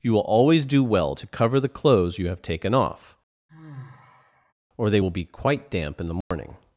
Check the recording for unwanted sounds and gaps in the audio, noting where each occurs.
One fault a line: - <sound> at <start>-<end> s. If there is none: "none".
- sigh at 3.5-4.5 s
- dropout at 6.2-6.3 s